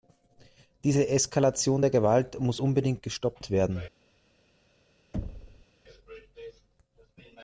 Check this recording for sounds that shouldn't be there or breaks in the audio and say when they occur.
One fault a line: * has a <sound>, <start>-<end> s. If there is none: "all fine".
* has a thud, 5.1-5.7 s